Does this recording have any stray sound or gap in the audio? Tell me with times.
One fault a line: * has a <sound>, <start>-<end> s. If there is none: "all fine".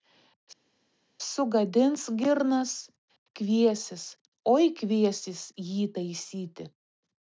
all fine